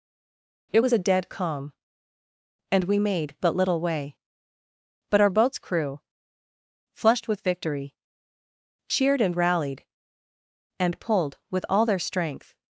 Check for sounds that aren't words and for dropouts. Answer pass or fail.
pass